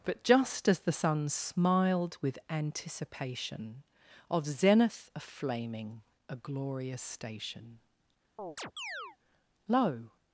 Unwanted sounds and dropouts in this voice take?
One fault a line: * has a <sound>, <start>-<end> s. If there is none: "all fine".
* has a chirp, 8.4-9.2 s